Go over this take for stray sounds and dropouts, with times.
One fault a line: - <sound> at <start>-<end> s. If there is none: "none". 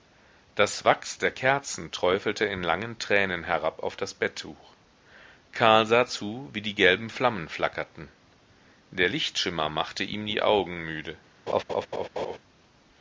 - laugh at 11.5-12.4 s